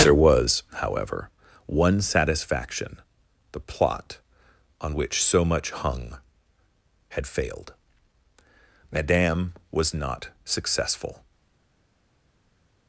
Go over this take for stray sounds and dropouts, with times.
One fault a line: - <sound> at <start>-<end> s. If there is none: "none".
none